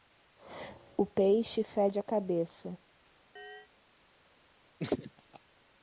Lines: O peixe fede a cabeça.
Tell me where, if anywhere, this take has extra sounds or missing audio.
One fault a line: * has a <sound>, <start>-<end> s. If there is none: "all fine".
* has a chirp, 3.4-3.7 s
* has a laugh, 4.8-5.4 s